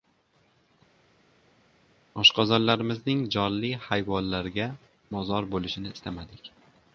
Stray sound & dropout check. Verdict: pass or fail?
pass